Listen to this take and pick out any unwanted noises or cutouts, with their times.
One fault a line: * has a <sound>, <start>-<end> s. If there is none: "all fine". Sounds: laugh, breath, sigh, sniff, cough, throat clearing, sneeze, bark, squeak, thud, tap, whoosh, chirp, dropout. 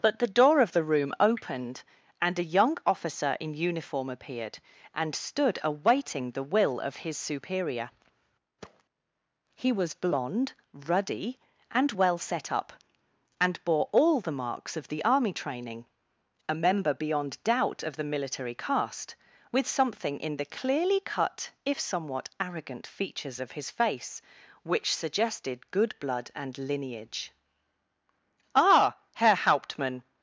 * has a thud, 8.6-8.8 s